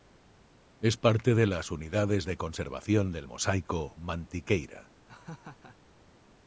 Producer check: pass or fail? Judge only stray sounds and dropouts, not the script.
fail